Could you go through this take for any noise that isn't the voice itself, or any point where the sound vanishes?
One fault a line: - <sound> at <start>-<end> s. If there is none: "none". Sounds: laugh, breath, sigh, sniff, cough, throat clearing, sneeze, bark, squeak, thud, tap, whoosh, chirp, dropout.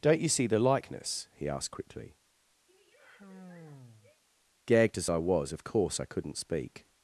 - sigh at 2.7-4.2 s